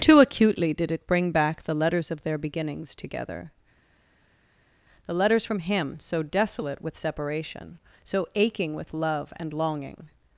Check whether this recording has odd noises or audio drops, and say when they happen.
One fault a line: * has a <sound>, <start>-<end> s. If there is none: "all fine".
all fine